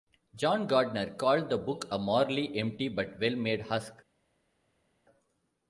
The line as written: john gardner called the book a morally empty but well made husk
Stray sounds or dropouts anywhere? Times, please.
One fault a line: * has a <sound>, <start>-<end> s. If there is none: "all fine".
all fine